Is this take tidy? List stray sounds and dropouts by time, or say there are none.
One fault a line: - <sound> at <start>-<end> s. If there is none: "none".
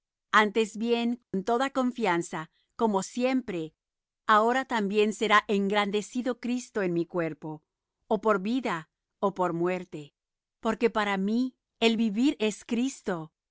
- dropout at 1.2-1.3 s